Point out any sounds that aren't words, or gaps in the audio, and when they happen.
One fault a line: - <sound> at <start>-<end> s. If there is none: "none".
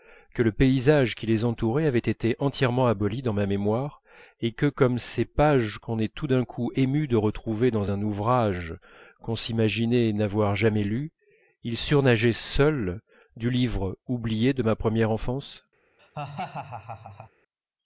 - laugh at 16.0-17.3 s